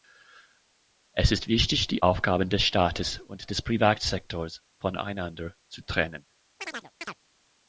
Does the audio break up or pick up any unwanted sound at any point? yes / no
yes